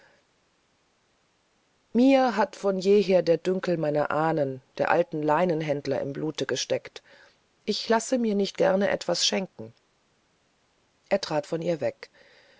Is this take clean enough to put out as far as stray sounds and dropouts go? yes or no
yes